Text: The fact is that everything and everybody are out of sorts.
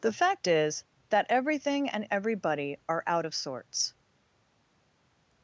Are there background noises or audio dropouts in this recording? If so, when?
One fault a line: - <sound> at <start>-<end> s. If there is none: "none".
none